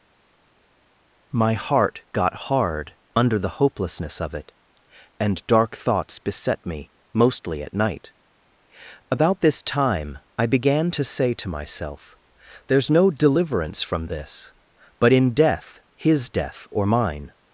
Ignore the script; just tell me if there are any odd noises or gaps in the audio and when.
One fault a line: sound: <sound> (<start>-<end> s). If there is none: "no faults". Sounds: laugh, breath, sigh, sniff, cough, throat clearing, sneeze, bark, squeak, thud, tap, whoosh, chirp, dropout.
no faults